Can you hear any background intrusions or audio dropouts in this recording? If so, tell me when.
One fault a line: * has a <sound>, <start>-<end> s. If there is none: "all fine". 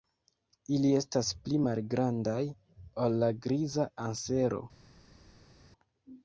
all fine